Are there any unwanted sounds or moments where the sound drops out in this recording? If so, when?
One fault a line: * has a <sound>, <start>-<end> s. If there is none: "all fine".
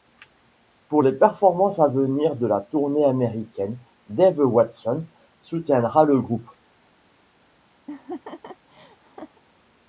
* has a laugh, 7.9-9.4 s